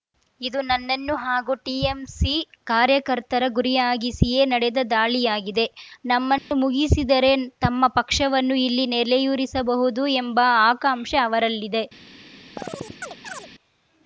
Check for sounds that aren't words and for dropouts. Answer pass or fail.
fail